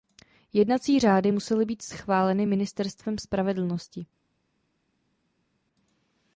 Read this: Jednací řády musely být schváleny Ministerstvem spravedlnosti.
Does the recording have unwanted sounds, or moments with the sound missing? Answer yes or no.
no